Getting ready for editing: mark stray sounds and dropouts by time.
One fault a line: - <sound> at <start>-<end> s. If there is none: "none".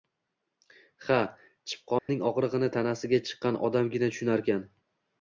- dropout at 2.0-2.1 s